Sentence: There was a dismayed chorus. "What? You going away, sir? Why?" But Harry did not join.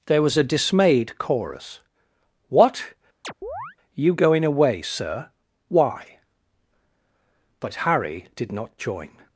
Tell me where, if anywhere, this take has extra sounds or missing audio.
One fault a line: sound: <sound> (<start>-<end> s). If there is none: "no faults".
sound: chirp (3.2-3.8 s)